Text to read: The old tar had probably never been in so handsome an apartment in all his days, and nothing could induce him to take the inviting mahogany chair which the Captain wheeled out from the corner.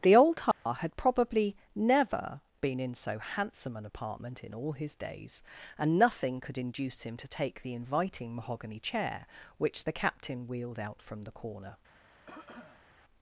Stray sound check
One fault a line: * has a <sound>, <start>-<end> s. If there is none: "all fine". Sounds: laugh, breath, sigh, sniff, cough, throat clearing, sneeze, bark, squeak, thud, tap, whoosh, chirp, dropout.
* has a dropout, 0.5-0.7 s
* has a cough, 12.3-12.9 s